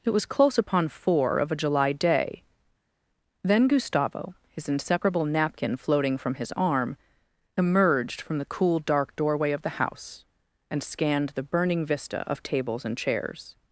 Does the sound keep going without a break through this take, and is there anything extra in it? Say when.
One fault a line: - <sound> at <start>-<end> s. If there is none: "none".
none